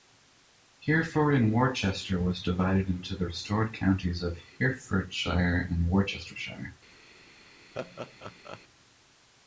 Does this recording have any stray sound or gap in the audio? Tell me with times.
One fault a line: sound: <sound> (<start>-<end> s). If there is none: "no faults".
sound: laugh (7.7-8.6 s)